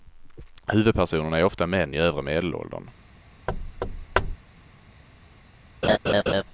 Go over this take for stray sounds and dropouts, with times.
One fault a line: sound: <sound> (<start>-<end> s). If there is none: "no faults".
sound: thud (3.5-4.4 s)
sound: laugh (5.8-6.4 s)